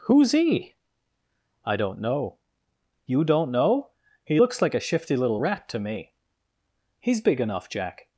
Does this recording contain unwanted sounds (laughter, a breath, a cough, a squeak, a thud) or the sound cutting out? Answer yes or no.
no